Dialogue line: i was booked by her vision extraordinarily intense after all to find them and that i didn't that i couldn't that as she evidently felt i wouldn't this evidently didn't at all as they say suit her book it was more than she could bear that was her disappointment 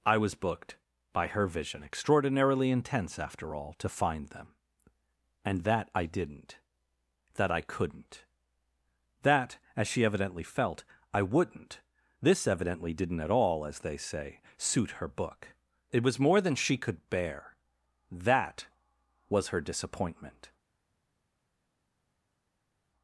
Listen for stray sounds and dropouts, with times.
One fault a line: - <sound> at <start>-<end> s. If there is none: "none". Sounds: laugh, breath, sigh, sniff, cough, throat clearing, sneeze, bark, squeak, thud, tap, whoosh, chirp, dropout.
none